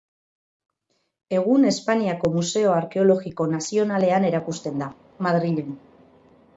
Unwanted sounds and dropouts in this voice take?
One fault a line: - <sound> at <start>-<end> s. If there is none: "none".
none